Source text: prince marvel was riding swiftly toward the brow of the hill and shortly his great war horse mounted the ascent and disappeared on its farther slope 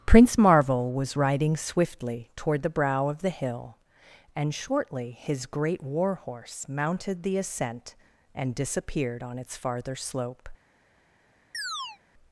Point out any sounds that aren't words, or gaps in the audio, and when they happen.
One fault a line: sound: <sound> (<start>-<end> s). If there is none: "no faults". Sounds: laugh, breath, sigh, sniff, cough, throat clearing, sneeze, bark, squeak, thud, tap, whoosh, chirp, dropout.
sound: chirp (11.5-12.0 s)